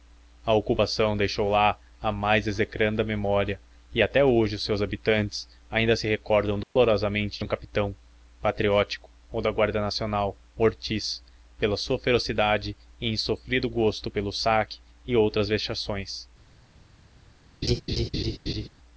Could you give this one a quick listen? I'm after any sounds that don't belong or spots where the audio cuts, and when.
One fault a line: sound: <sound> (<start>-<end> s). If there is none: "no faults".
sound: dropout (6.6-6.8 s)
sound: laugh (17.6-18.7 s)